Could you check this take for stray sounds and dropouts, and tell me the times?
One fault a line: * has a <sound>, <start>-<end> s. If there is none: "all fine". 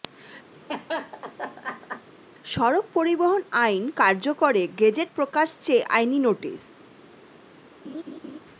* has a laugh, 0.5-2.1 s
* has a laugh, 7.8-8.4 s